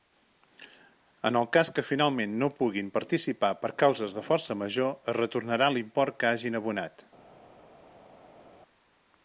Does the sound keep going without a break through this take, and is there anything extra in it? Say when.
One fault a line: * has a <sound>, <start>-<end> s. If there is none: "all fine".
all fine